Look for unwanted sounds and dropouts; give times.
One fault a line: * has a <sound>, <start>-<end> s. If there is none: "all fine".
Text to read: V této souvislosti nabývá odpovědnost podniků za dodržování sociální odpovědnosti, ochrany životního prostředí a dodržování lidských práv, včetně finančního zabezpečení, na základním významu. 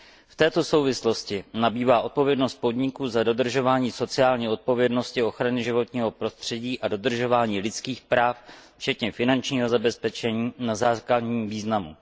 all fine